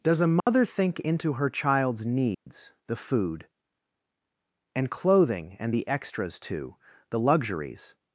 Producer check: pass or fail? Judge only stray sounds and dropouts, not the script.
fail